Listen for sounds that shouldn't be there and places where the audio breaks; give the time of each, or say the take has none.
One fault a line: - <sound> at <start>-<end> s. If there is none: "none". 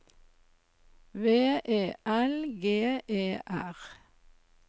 none